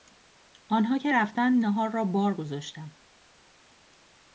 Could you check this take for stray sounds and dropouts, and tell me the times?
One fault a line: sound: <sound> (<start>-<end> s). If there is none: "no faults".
no faults